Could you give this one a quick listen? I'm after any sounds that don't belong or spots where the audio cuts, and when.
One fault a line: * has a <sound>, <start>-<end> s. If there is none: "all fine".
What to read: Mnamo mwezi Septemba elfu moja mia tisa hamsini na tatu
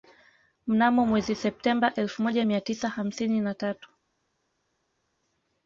all fine